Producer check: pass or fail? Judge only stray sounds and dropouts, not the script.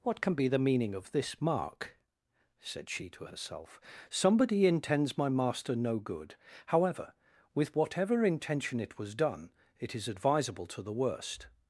pass